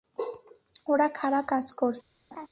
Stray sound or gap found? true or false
true